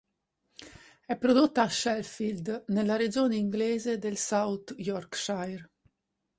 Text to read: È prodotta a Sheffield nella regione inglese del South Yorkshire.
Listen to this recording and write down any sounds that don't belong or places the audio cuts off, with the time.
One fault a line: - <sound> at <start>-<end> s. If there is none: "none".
none